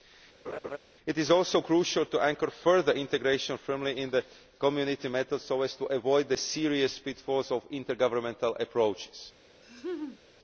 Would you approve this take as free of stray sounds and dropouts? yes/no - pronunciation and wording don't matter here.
no